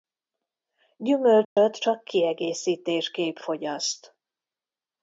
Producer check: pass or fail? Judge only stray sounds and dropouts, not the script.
fail